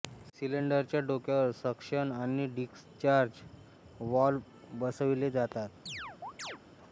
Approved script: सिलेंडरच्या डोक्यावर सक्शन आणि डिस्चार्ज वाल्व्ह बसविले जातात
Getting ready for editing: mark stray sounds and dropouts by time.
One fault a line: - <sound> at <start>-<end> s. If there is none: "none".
- chirp at 5.9-6.6 s